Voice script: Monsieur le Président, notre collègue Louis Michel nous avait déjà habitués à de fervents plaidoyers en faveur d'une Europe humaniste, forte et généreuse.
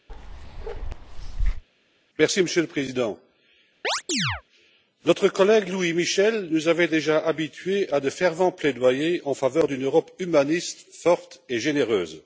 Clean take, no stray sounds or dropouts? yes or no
no